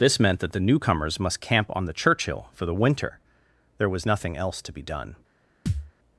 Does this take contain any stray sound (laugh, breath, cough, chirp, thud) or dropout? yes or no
yes